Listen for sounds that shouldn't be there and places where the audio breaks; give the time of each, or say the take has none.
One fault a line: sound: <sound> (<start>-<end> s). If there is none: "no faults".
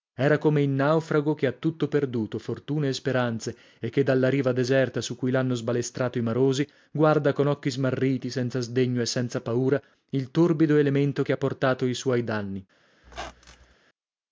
sound: squeak (13.0-13.7 s)